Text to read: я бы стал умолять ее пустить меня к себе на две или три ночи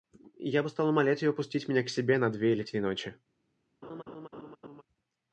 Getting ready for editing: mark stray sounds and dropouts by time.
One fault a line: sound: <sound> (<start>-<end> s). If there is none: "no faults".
sound: laugh (3.8-4.8 s)